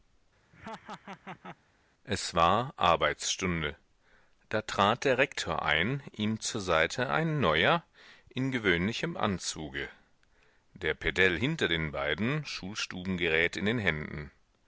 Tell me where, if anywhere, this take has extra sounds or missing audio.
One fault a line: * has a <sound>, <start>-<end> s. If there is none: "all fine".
* has a laugh, 0.5-1.6 s